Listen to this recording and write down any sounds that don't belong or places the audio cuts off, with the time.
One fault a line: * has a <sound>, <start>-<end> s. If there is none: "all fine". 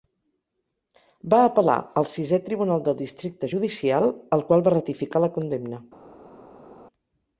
all fine